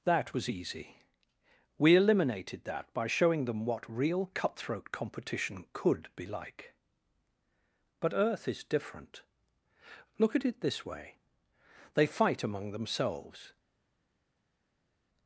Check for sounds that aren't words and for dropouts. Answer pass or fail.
pass